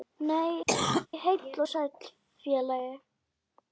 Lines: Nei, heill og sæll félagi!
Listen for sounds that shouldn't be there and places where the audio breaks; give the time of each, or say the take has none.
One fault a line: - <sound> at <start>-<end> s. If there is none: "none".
- cough at 0.7-1.1 s